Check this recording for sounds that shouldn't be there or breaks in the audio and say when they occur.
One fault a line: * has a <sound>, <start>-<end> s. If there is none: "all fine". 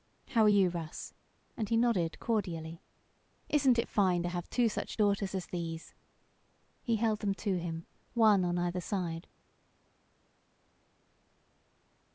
all fine